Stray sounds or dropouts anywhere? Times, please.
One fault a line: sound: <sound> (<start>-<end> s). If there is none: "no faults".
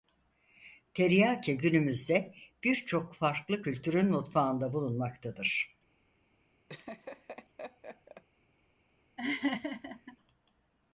sound: laugh (6.7-8.2 s)
sound: laugh (9.2-10.2 s)